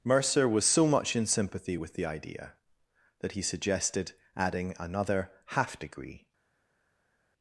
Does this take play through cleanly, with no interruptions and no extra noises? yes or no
yes